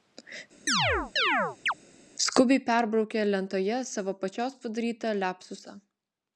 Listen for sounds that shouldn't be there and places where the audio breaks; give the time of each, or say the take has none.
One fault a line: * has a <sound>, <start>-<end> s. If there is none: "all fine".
* has a chirp, 0.7-1.7 s